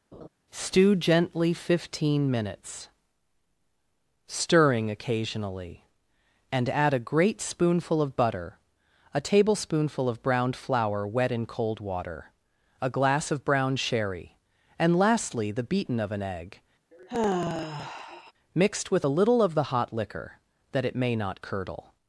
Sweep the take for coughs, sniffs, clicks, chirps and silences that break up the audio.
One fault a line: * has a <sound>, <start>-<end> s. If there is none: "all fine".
* has a laugh, 0.1-0.3 s
* has a sigh, 16.9-18.3 s